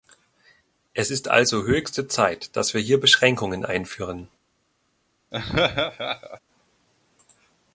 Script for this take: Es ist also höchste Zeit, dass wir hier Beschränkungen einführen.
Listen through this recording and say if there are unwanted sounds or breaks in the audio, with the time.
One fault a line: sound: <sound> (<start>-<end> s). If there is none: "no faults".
sound: laugh (5.3-6.4 s)